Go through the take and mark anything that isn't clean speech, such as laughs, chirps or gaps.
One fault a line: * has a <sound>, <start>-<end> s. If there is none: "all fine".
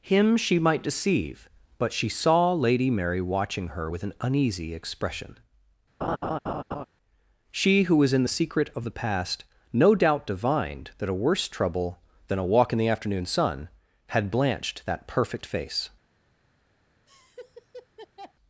* has a laugh, 6.0-6.9 s
* has a laugh, 17.1-18.3 s